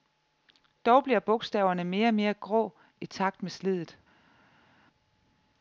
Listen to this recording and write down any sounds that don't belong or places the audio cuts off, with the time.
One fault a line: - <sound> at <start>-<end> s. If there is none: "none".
none